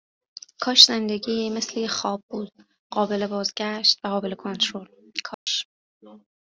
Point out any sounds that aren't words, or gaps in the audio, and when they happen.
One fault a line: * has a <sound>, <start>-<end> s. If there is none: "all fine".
* has a dropout, 5.3-5.5 s